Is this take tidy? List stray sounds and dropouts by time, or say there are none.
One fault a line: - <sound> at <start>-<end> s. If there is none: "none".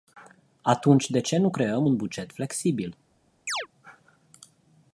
- chirp at 3.5-3.7 s